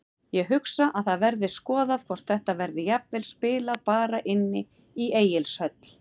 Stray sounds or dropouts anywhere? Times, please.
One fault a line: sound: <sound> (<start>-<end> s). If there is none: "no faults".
no faults